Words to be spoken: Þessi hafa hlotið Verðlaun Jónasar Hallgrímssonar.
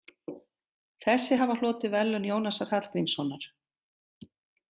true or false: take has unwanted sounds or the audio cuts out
false